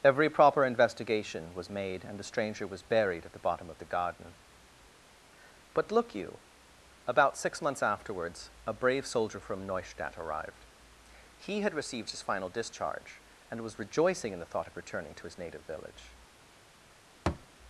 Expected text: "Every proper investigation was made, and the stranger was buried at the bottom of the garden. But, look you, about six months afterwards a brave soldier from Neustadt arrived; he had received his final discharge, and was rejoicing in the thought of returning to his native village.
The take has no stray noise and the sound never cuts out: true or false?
false